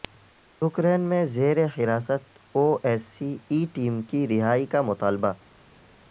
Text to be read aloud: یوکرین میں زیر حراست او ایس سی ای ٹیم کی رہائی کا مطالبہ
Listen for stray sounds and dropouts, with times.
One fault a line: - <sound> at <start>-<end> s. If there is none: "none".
none